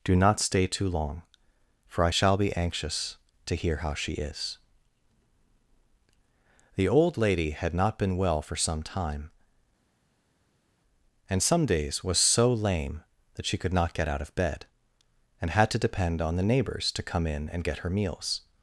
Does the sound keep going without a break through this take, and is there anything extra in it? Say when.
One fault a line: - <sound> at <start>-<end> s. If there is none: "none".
none